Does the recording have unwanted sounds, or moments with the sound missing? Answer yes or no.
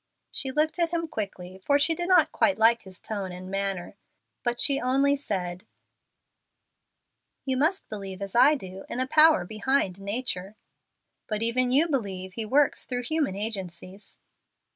no